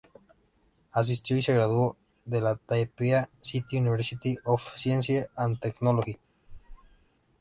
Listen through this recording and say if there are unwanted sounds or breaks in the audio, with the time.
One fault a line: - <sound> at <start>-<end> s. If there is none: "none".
- squeak at 6.5-7.1 s